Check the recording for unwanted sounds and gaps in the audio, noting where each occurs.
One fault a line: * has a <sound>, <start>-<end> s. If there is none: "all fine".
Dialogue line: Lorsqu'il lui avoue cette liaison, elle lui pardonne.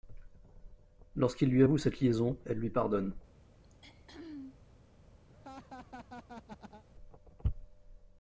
* has a throat clearing, 3.6-4.6 s
* has a laugh, 5.3-6.8 s